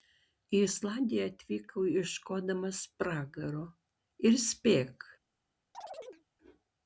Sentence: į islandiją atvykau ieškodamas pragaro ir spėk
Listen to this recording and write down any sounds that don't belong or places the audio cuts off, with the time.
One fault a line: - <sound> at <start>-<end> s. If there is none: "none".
- chirp at 5.7-6.2 s